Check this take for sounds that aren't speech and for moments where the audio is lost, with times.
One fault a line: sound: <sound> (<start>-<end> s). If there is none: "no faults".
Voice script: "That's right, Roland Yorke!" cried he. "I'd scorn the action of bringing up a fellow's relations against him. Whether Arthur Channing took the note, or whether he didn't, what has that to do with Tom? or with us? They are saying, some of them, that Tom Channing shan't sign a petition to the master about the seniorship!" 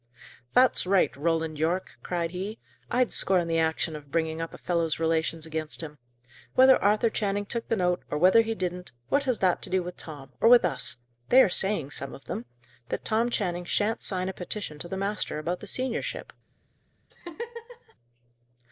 sound: laugh (17.1-17.9 s)